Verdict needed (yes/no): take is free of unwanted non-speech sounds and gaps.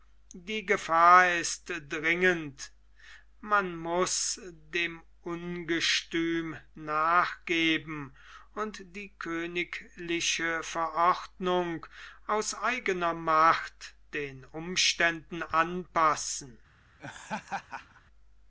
no